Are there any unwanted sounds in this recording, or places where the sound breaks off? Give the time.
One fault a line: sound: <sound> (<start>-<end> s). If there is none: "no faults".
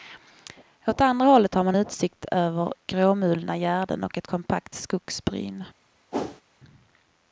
sound: whoosh (6.1-6.4 s)